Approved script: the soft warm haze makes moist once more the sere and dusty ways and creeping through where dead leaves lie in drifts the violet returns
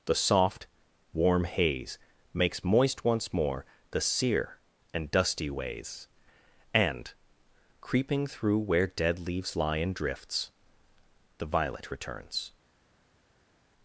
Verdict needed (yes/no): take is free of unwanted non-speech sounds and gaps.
yes